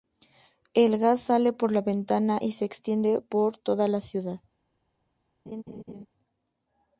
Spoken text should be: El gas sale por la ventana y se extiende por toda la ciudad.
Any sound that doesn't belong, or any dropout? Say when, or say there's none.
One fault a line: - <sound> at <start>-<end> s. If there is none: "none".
- laugh at 5.5-6.1 s